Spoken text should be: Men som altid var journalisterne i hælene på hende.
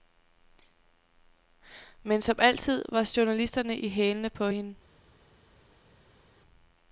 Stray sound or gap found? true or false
false